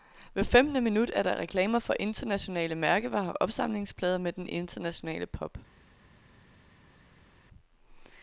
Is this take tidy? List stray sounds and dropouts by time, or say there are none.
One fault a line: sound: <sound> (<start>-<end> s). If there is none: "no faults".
no faults